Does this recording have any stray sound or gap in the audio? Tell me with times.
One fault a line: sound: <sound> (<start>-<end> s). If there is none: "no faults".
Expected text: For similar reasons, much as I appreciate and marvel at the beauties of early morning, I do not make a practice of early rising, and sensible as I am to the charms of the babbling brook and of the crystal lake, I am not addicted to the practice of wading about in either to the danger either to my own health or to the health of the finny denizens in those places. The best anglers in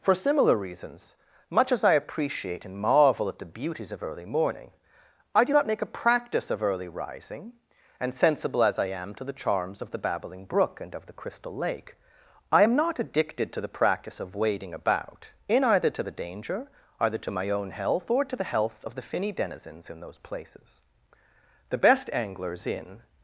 no faults